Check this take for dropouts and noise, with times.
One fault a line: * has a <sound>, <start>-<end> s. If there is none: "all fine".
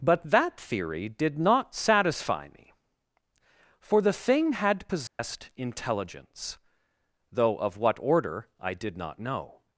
* has a dropout, 5.1-5.2 s